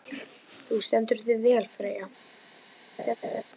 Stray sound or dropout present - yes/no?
yes